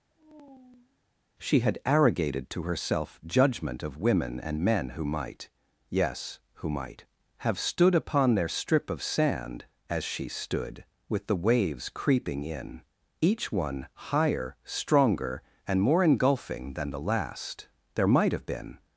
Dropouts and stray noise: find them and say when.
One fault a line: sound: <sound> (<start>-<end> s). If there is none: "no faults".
sound: sigh (0.1-1.0 s)